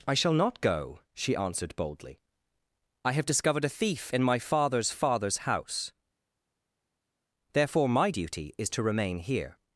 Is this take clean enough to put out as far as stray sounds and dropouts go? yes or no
yes